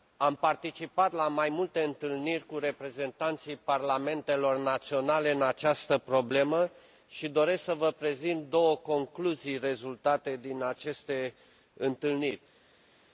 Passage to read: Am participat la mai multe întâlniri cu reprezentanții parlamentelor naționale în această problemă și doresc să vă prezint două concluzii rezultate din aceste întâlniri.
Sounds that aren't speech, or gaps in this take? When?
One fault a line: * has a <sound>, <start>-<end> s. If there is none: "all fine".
all fine